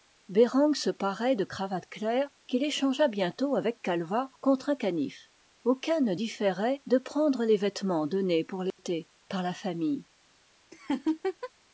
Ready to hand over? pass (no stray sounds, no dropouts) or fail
fail